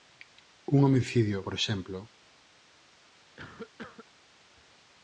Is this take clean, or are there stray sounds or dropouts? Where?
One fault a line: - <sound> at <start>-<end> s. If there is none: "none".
- cough at 3.4-4.1 s